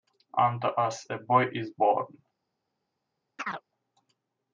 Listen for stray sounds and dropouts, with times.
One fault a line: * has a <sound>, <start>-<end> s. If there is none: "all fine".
* has a chirp, 3.4-3.6 s